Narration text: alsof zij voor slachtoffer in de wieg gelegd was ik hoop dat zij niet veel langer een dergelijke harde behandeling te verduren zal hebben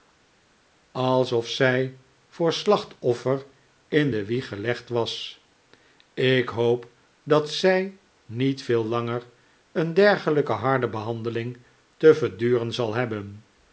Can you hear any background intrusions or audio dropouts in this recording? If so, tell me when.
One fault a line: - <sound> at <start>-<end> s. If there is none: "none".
none